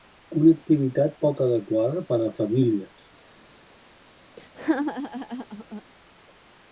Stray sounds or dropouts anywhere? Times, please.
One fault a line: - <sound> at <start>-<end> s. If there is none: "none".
- laugh at 4.4-5.8 s